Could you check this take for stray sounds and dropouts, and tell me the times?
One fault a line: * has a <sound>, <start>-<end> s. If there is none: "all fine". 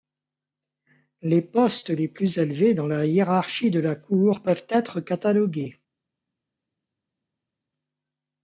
all fine